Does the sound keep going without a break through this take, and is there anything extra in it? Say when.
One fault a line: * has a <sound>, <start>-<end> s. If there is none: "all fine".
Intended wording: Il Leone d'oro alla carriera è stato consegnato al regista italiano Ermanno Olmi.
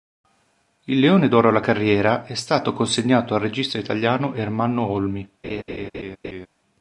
* has a laugh, 5.4-6.5 s